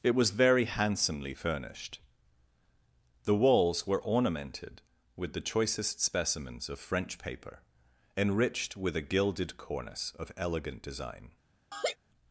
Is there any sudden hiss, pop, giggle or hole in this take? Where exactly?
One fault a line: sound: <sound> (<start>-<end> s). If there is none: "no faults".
sound: laugh (11.7-12.0 s)